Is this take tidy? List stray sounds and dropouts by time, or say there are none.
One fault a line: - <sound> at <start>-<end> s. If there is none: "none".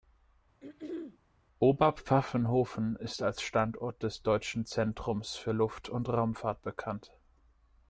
- throat clearing at 0.6-1.2 s